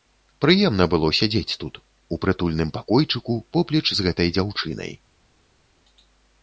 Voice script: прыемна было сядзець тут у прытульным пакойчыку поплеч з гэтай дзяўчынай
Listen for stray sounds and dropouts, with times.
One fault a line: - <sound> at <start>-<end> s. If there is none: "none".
none